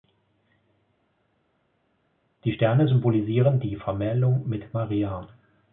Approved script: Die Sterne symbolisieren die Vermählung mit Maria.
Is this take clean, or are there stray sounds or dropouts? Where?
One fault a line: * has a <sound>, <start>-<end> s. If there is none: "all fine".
all fine